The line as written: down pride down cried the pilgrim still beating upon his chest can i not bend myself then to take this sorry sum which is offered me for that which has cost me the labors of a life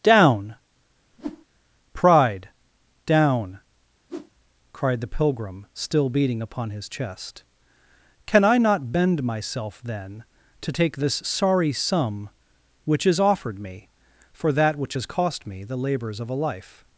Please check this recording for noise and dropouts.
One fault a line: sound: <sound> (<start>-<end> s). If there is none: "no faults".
sound: whoosh (1.1-1.5 s)
sound: whoosh (4.1-4.3 s)